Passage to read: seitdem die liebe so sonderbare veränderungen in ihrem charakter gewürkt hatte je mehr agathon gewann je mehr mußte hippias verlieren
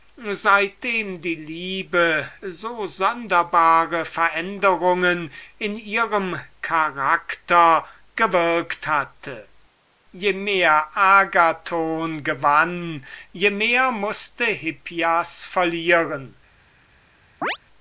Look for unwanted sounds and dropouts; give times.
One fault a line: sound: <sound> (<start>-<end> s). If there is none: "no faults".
sound: chirp (17.4-17.6 s)